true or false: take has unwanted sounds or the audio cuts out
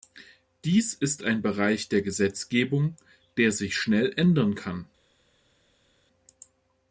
false